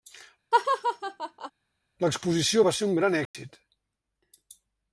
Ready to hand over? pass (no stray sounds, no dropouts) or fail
fail